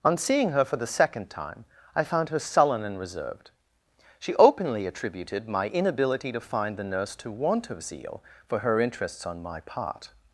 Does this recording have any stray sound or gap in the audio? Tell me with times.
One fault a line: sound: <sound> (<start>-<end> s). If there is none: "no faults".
no faults